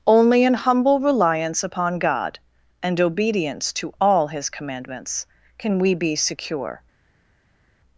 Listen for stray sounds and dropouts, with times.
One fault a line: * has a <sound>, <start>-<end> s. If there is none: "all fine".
all fine